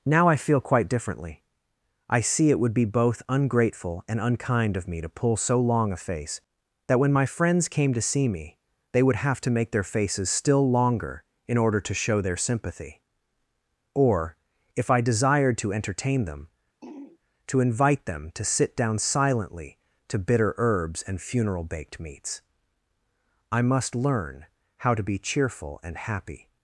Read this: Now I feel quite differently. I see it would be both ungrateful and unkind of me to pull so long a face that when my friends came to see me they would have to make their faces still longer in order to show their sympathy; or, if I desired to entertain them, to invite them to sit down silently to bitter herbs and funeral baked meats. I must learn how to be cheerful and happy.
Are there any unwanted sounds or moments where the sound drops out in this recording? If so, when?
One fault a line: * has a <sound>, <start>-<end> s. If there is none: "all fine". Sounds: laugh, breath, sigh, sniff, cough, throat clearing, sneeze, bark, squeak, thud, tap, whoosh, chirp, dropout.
* has a throat clearing, 16.8-17.2 s